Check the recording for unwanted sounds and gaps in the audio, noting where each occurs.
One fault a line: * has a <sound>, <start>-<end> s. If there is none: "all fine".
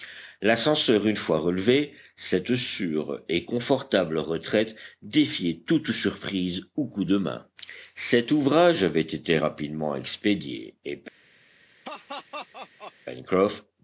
* has a laugh, 11.8-12.9 s